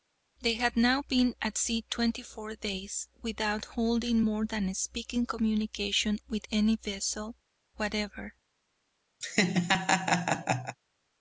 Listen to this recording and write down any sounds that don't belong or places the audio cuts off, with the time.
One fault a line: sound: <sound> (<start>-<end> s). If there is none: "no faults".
sound: laugh (9.2-10.8 s)